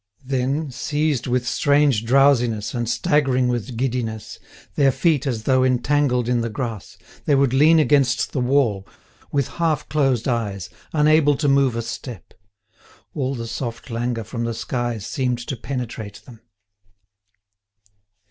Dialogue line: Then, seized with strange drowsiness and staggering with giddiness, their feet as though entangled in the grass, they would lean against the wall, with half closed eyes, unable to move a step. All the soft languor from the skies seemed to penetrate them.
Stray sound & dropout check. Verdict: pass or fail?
pass